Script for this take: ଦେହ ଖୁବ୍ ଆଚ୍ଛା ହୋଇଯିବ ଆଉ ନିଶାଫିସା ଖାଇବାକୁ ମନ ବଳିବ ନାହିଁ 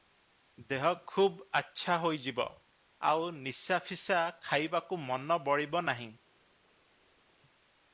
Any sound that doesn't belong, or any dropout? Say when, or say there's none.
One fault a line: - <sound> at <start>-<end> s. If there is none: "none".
none